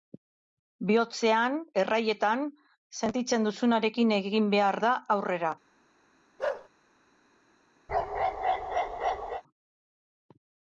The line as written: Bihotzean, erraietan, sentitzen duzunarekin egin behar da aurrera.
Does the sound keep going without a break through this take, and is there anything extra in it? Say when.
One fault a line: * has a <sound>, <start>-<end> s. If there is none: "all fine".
* has a bark, 6.4-6.7 s
* has a bark, 7.9-9.4 s